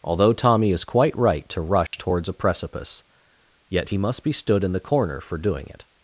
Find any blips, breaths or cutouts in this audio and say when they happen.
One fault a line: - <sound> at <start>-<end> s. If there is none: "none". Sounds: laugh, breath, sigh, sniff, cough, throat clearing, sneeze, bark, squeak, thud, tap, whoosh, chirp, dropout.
- dropout at 1.9-1.9 s